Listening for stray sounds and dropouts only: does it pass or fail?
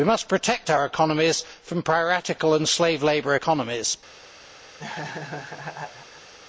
fail